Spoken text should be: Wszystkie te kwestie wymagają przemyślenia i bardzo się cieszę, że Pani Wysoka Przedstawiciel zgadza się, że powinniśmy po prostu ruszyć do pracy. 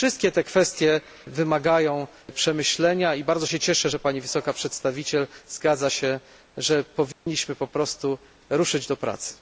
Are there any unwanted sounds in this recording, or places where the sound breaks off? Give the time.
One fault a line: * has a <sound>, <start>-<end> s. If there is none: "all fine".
* has a dropout, 7.1-7.3 s